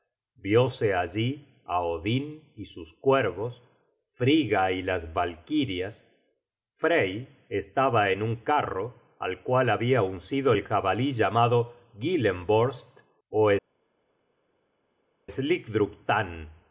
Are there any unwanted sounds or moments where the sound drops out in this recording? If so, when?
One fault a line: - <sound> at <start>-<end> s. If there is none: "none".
none